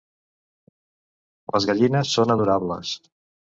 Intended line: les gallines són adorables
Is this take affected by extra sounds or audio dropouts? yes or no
no